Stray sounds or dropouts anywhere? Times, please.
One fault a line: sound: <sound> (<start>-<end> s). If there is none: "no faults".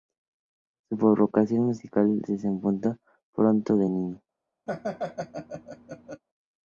sound: laugh (4.7-6.2 s)